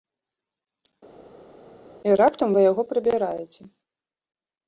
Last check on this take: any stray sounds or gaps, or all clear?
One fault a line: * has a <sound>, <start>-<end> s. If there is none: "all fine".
all fine